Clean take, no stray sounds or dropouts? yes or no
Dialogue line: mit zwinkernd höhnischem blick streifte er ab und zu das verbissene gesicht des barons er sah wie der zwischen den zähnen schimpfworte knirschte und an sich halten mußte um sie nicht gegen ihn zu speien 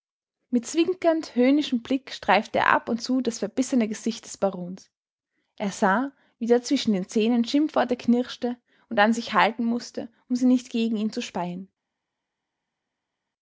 yes